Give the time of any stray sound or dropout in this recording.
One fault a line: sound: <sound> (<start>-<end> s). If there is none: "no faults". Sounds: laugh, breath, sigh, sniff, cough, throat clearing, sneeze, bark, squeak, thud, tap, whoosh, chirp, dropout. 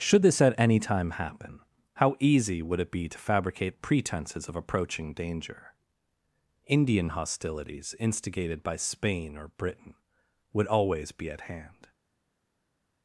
no faults